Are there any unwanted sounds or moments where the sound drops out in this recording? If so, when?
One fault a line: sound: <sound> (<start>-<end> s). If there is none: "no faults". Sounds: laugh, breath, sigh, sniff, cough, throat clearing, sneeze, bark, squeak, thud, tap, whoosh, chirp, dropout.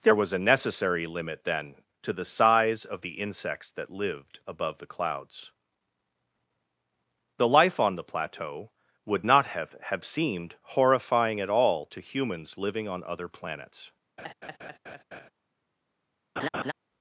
sound: laugh (14.2-15.3 s)
sound: laugh (16.4-16.7 s)